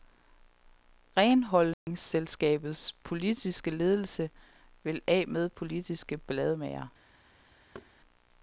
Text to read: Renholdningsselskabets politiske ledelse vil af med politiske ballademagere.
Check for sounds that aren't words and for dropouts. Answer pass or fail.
fail